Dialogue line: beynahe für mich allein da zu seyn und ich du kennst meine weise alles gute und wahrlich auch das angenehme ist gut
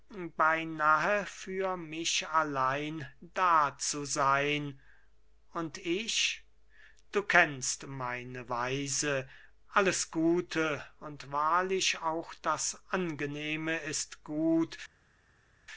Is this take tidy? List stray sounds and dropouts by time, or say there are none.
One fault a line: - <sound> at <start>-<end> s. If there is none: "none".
none